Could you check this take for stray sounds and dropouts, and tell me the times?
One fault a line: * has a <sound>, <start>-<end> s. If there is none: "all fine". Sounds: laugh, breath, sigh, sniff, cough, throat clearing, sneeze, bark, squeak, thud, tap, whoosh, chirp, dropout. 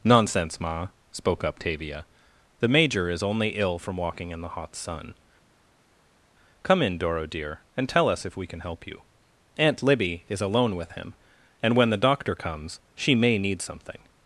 all fine